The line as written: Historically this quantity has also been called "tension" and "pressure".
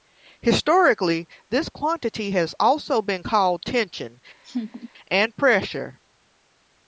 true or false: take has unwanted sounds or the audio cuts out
true